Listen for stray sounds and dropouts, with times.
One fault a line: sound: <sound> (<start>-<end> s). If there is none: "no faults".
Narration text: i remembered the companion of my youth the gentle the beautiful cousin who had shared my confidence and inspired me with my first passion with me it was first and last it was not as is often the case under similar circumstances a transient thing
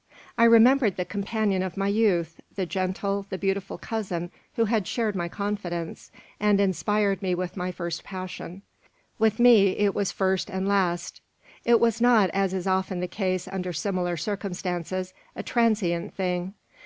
no faults